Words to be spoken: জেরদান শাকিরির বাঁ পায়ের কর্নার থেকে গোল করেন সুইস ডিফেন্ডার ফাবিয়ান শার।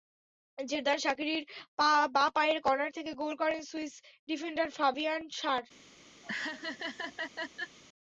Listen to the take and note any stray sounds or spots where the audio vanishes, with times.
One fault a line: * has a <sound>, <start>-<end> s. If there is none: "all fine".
* has a laugh, 6.2-7.8 s